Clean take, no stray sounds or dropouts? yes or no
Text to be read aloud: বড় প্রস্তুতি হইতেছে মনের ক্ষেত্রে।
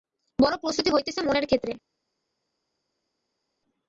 yes